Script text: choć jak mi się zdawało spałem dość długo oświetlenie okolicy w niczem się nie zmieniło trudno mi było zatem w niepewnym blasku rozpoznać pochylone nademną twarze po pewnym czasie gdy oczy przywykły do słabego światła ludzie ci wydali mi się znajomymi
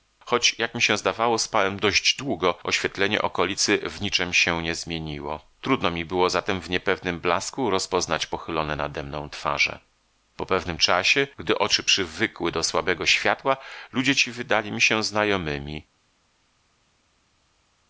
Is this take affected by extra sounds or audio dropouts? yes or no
no